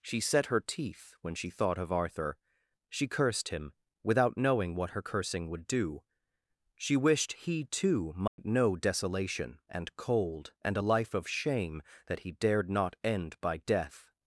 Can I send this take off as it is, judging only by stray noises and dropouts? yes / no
no